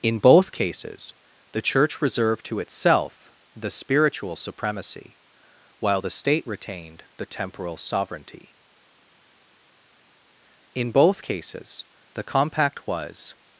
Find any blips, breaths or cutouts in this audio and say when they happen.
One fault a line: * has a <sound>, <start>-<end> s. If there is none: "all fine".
all fine